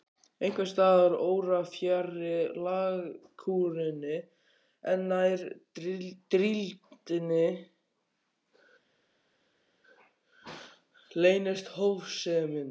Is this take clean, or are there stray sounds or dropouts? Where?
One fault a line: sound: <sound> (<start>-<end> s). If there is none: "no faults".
no faults